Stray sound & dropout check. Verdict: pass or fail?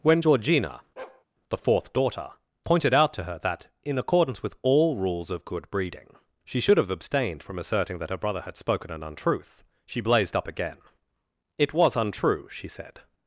fail